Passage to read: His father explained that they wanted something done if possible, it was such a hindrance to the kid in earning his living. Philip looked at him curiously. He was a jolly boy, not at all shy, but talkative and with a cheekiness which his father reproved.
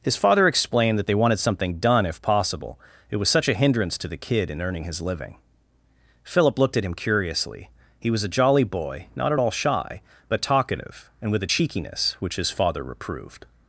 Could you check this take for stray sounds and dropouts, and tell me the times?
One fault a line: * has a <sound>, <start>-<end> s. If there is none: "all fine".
all fine